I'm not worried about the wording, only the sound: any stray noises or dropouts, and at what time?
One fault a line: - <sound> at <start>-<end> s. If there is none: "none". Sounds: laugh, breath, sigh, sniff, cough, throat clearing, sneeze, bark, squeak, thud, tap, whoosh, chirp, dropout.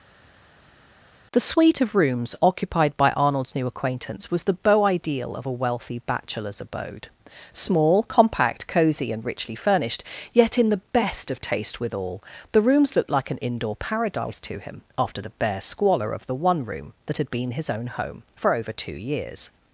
none